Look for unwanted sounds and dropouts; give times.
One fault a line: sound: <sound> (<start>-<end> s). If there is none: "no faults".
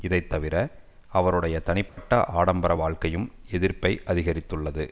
sound: dropout (1.9-2.0 s)